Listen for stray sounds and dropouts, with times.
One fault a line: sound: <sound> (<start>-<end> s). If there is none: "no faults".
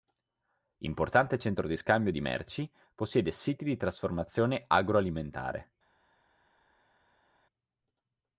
no faults